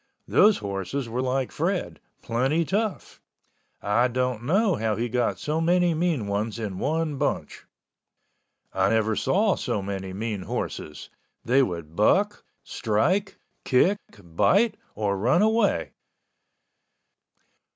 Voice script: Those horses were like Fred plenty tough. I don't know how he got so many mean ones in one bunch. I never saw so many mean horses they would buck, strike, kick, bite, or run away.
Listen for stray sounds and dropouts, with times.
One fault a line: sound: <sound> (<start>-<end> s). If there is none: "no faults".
no faults